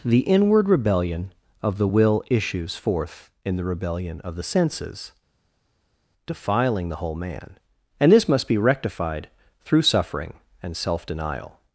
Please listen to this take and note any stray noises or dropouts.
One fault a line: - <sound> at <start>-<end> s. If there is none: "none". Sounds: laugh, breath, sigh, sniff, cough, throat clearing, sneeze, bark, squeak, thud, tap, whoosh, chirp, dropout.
none